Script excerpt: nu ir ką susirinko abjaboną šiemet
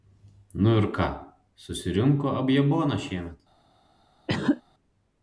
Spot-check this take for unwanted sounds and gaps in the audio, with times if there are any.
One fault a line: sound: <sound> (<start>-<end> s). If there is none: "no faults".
sound: cough (4.3-4.6 s)